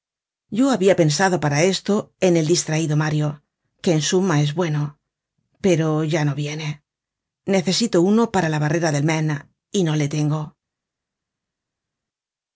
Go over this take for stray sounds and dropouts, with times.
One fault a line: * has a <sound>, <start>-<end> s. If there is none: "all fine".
all fine